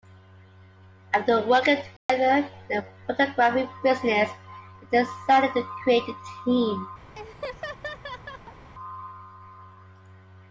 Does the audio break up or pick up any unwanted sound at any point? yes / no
yes